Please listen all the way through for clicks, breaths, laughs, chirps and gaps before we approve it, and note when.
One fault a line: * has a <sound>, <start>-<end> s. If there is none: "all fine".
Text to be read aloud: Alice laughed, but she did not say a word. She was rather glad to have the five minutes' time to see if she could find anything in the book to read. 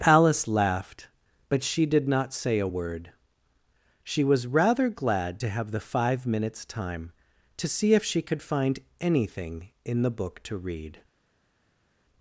all fine